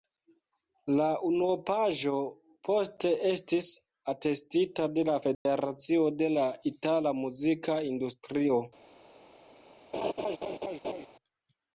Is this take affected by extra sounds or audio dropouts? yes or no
yes